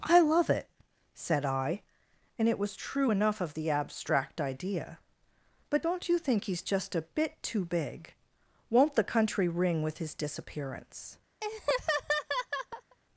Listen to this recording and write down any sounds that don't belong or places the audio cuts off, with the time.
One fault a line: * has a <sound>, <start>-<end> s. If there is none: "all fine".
* has a laugh, 11.4-13.0 s